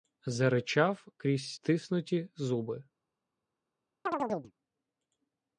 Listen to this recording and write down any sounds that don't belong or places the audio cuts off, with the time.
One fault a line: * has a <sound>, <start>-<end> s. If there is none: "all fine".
* has a chirp, 4.1-4.5 s